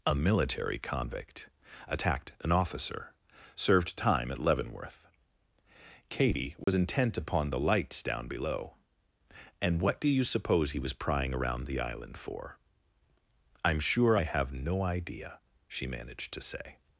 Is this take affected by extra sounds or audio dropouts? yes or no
yes